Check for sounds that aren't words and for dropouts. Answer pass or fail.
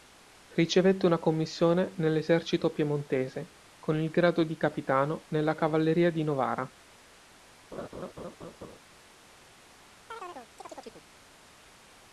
fail